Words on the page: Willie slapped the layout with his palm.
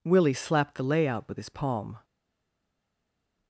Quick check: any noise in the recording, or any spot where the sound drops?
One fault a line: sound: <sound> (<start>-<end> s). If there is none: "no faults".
no faults